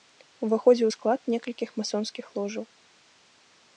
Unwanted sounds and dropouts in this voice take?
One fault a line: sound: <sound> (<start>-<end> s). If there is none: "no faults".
no faults